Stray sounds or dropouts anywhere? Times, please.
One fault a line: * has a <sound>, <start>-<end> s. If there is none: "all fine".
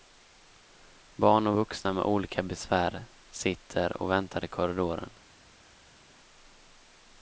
all fine